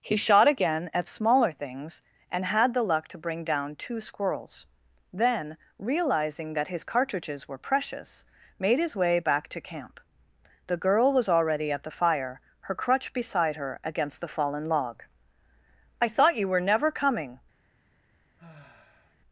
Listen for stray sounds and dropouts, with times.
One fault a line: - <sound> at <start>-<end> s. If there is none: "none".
- sigh at 18.4-19.2 s